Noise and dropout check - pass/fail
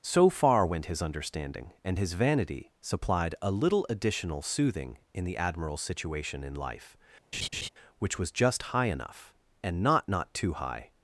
fail